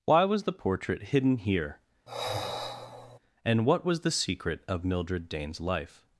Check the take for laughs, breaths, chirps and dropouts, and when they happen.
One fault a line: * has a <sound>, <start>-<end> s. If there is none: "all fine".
* has a sigh, 2.1-3.2 s